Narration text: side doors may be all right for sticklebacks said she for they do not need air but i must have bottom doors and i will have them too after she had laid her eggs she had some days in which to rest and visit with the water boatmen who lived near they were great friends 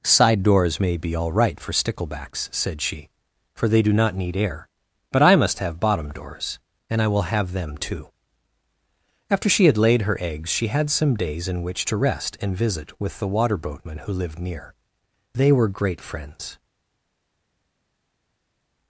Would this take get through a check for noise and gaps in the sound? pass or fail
pass